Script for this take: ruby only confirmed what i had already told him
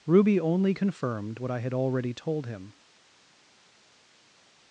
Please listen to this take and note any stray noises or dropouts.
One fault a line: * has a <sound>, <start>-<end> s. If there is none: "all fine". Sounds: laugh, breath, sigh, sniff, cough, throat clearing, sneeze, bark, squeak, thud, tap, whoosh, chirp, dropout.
all fine